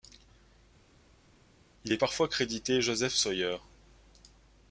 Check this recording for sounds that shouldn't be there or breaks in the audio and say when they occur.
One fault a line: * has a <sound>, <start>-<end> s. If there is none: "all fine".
all fine